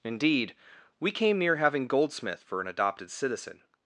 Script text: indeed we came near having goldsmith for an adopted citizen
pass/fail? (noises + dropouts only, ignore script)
pass